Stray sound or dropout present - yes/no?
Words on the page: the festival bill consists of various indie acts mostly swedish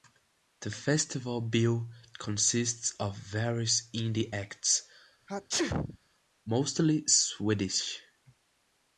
yes